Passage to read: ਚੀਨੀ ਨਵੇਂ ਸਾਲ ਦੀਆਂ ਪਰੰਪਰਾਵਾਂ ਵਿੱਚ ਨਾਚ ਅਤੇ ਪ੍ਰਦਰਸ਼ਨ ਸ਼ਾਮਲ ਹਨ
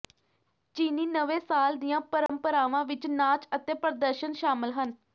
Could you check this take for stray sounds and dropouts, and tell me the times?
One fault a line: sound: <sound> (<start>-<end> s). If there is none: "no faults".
sound: dropout (2.3-2.3 s)